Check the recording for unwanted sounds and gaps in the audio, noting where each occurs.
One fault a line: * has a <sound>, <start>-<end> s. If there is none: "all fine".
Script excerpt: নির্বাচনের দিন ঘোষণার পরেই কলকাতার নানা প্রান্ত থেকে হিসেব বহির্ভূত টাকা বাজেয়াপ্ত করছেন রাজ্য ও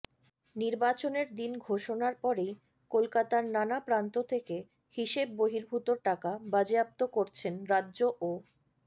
all fine